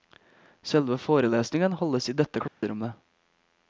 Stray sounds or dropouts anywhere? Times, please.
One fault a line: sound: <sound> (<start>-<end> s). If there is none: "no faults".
sound: dropout (2.5-2.6 s)